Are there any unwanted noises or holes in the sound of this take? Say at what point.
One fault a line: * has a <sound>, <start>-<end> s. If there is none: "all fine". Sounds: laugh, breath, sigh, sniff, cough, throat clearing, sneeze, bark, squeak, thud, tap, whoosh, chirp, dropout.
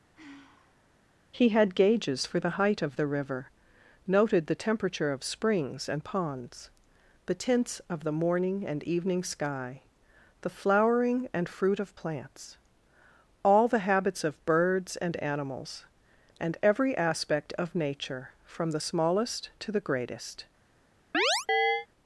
* has a sigh, 0.1-0.9 s
* has a chirp, 21.1-21.9 s